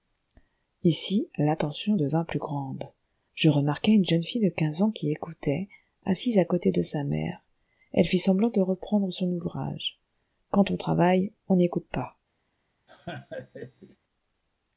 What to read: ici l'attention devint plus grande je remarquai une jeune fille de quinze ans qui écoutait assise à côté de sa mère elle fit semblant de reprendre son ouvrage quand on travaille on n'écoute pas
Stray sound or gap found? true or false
true